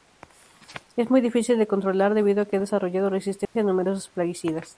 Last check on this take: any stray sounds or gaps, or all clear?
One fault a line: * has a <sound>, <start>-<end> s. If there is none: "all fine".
* has a dropout, 3.4-3.6 s